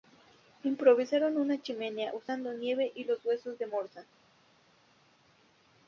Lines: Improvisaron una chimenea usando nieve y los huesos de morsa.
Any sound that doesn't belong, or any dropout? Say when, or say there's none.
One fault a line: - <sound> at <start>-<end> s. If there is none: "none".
none